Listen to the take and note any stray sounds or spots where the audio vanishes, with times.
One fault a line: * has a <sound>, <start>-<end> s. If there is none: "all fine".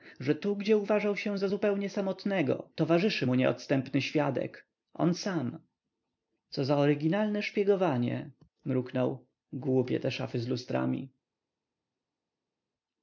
all fine